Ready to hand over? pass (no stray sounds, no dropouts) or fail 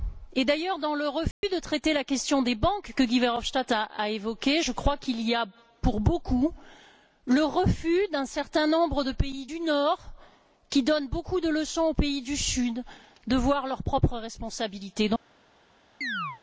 fail